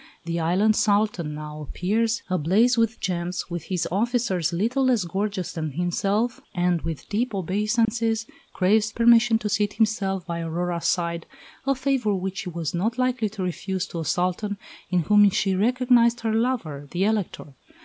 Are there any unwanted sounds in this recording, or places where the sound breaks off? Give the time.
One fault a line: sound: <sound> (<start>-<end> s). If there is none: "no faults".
sound: dropout (7.8-7.9 s)